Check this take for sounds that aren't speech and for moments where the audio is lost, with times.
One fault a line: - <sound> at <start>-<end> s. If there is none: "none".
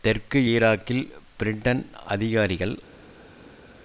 none